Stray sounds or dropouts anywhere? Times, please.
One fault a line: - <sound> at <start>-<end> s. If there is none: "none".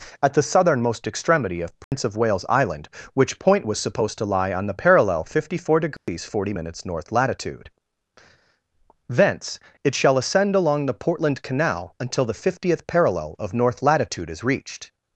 - dropout at 1.8-1.9 s
- dropout at 6.0-6.1 s